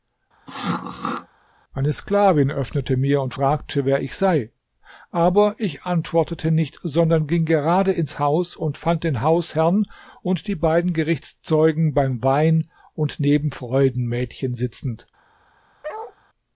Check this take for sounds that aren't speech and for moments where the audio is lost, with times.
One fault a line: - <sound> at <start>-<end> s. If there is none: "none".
- throat clearing at 0.5-1.3 s
- bark at 15.8-16.2 s